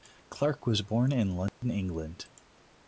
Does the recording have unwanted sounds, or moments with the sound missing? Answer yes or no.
yes